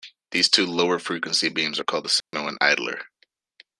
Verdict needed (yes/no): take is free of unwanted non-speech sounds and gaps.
no